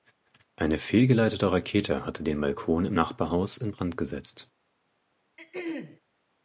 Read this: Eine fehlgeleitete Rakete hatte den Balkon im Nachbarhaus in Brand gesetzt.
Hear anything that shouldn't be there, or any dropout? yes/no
yes